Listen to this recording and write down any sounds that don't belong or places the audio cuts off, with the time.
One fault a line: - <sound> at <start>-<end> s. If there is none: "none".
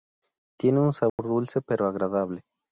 - dropout at 1.1-1.2 s